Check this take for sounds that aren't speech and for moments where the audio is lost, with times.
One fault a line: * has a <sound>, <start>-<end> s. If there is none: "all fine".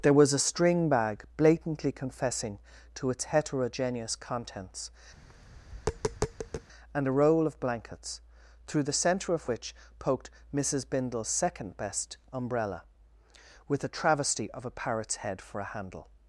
* has a tap, 5.1-6.7 s